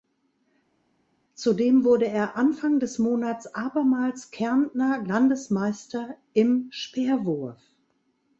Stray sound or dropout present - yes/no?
no